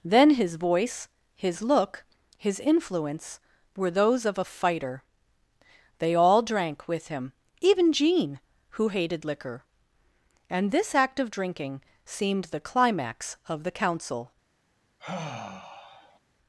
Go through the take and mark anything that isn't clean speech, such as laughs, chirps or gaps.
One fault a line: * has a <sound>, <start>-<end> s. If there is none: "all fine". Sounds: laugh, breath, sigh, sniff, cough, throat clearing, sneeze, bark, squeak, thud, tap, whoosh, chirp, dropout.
* has a sigh, 15.0-16.2 s